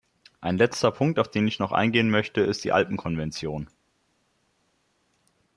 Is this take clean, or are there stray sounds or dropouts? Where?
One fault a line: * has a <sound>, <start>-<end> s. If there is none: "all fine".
all fine